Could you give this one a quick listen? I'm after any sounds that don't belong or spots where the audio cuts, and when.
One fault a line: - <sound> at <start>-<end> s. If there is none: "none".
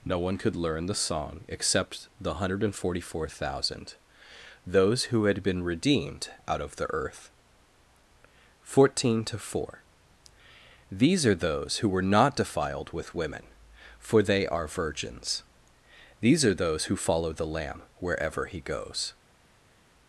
none